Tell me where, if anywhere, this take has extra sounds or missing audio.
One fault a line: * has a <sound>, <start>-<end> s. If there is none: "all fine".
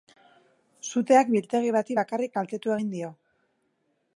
all fine